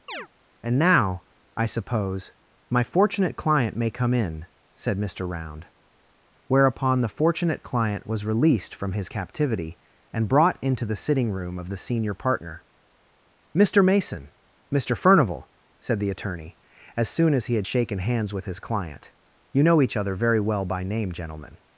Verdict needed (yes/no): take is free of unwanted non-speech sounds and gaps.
no